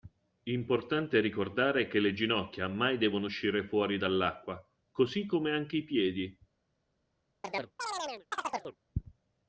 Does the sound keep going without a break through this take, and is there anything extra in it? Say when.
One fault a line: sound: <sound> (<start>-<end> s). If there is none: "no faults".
sound: chirp (7.4-8.8 s)